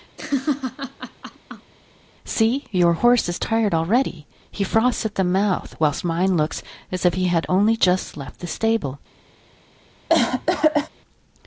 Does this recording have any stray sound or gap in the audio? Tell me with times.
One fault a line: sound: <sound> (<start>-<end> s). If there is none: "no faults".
sound: laugh (0.2-1.7 s)
sound: cough (10.1-10.9 s)